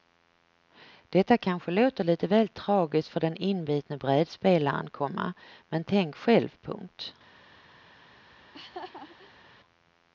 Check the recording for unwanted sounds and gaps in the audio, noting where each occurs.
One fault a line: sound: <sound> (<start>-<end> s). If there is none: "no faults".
sound: laugh (8.4-9.5 s)